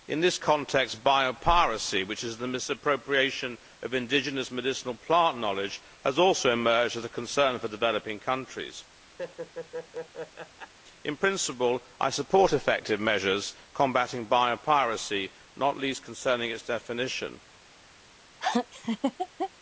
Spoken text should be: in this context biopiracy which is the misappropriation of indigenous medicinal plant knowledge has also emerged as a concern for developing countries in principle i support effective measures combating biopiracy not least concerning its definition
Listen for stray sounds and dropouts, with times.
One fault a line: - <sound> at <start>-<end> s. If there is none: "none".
- laugh at 9.2-10.7 s
- laugh at 18.4-19.5 s